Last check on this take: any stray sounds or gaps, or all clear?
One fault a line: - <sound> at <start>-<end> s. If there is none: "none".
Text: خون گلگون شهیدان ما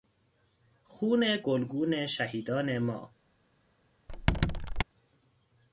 - squeak at 4.1-4.8 s